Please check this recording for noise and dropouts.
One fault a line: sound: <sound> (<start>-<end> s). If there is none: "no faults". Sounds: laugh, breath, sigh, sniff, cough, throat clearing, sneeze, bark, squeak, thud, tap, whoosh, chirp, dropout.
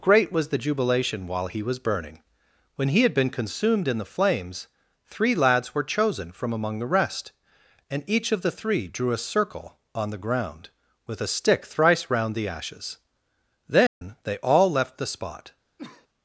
sound: dropout (13.9-14.0 s)
sound: cough (15.8-16.1 s)